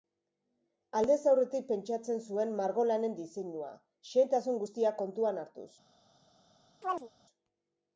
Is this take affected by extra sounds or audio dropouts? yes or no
yes